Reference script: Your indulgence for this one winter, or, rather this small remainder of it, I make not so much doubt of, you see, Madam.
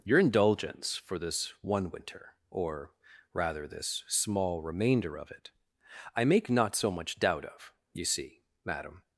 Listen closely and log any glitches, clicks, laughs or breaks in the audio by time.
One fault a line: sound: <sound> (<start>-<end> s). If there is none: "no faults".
no faults